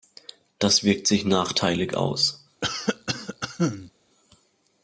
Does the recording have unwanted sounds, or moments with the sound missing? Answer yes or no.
yes